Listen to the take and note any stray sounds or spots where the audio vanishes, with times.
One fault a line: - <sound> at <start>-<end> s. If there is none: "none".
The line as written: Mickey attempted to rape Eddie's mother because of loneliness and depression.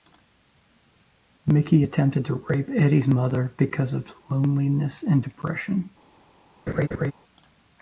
- laugh at 6.7-7.1 s